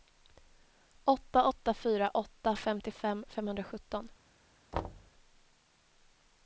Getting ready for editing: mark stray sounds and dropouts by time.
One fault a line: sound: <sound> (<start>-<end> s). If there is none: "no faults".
sound: thud (4.7-5.1 s)